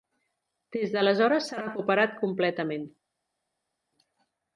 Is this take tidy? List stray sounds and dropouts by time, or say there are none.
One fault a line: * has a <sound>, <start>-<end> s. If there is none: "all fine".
all fine